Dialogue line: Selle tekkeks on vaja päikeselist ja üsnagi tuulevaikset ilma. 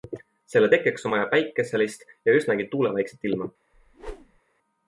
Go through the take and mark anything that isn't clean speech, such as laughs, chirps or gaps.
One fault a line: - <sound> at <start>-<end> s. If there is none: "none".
- whoosh at 3.7-4.4 s